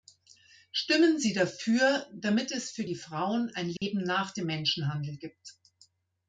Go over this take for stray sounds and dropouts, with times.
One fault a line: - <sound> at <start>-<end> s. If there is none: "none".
- dropout at 3.8-3.8 s